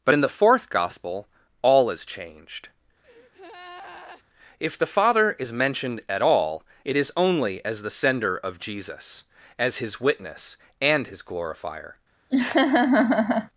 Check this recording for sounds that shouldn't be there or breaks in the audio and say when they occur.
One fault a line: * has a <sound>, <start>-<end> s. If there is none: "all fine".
* has a breath, 3.0-4.2 s
* has a laugh, 12.3-13.5 s